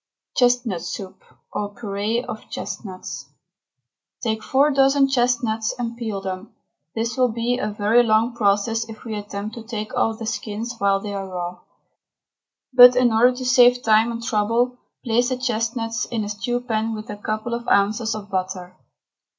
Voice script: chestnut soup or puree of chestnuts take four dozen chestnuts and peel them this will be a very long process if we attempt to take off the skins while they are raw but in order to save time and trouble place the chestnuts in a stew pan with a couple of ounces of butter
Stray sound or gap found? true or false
false